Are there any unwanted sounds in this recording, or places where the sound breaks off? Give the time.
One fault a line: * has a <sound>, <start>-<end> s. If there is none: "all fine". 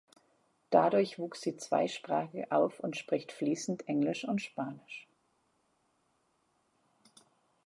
all fine